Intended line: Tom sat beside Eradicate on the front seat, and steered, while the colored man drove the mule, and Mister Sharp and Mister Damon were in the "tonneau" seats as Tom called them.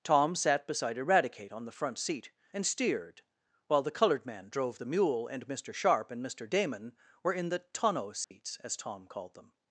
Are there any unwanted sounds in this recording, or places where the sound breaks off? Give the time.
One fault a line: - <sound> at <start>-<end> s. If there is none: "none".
- dropout at 8.2-8.3 s